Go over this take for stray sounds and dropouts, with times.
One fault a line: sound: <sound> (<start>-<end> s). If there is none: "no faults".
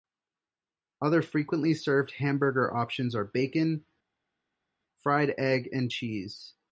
no faults